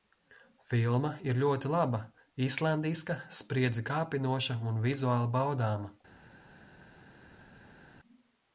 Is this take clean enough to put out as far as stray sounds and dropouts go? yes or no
yes